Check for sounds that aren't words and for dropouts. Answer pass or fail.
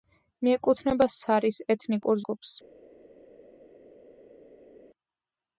pass